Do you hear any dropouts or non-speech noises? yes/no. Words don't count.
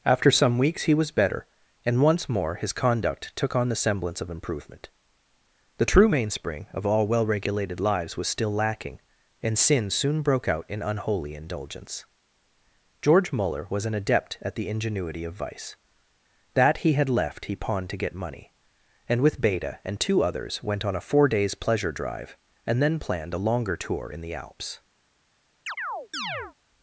yes